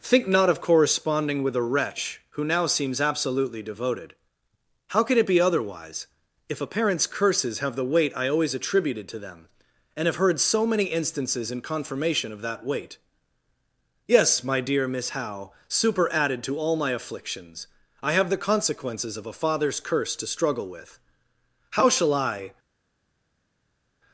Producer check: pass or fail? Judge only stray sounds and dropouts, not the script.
pass